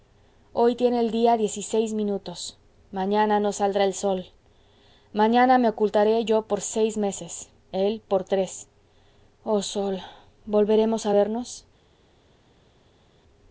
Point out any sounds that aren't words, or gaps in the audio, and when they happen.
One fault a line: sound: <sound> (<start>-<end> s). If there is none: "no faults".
no faults